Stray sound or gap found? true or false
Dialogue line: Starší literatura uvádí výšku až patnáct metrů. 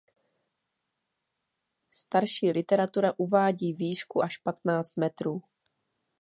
false